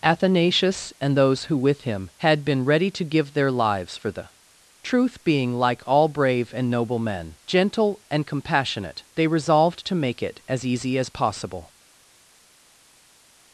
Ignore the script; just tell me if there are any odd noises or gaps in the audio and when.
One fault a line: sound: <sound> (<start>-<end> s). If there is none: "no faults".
no faults